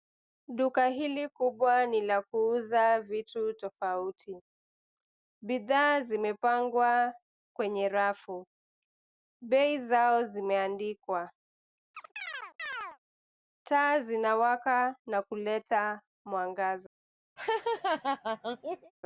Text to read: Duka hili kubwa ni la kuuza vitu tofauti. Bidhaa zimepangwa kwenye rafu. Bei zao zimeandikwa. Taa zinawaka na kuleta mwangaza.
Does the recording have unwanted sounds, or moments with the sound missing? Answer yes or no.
yes